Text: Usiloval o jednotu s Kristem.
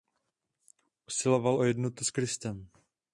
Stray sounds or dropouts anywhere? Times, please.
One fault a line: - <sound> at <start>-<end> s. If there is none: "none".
none